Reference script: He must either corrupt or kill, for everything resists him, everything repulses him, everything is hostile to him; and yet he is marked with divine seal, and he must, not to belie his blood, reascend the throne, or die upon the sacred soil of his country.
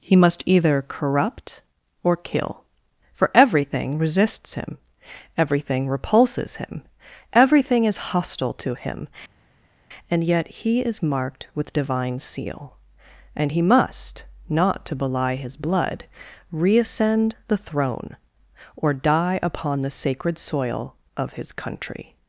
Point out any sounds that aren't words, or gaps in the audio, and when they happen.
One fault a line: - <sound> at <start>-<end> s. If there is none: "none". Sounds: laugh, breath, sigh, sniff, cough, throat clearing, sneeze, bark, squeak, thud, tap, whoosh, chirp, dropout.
none